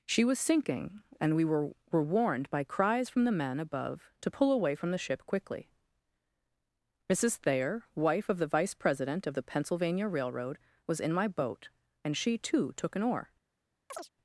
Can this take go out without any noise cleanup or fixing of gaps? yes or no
no